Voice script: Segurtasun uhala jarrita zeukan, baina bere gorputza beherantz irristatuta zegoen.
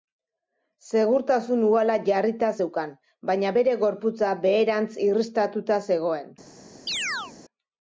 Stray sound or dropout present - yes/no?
yes